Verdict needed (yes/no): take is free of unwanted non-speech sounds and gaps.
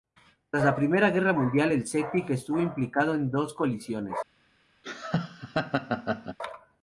no